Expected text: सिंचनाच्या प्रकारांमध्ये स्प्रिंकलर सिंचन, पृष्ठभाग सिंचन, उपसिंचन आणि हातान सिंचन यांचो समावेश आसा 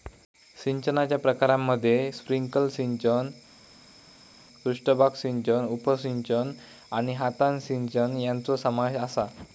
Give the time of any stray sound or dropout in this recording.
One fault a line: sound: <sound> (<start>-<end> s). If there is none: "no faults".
no faults